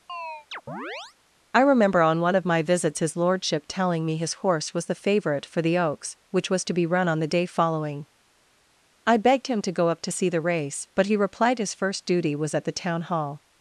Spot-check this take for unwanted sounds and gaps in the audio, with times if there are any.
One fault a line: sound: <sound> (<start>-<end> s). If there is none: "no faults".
sound: chirp (0.1-1.2 s)